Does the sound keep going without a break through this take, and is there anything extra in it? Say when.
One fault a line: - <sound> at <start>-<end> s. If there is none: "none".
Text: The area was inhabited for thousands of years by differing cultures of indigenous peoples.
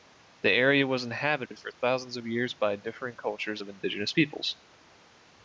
- dropout at 1.5-1.5 s